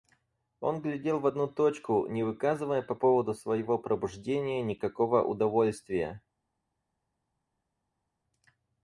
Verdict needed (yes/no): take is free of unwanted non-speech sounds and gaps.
yes